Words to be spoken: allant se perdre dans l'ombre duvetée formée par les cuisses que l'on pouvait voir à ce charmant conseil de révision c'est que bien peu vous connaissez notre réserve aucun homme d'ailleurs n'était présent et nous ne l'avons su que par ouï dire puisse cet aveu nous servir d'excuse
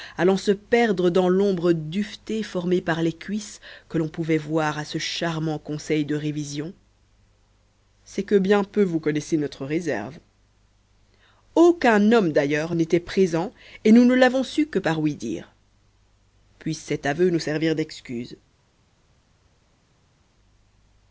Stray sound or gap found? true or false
false